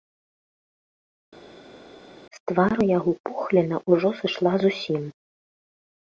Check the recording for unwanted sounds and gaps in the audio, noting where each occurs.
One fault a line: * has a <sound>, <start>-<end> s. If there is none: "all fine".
all fine